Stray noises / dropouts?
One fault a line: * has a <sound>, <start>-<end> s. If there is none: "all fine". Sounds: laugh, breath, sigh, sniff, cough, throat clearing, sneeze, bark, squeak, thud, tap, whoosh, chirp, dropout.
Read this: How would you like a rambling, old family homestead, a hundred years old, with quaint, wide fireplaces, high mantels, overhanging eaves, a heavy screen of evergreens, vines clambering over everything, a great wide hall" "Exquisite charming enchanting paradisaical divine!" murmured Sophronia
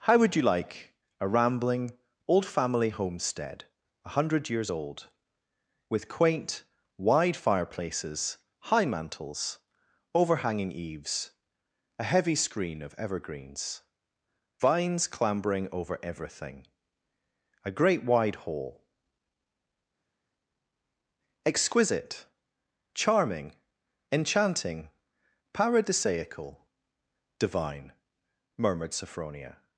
all fine